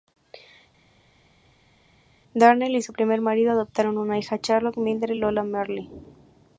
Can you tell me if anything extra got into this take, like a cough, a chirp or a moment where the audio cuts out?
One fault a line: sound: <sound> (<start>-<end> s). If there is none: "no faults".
no faults